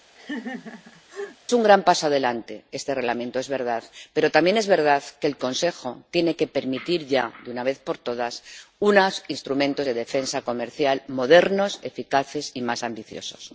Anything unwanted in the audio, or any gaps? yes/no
yes